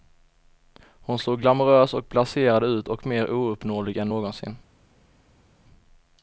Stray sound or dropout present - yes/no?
no